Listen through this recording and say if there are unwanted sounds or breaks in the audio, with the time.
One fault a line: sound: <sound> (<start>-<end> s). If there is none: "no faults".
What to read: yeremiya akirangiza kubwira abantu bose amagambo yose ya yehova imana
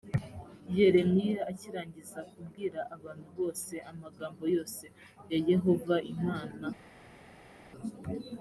no faults